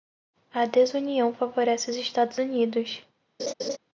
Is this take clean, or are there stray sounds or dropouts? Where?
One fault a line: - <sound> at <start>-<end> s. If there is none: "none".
- laugh at 3.4-3.8 s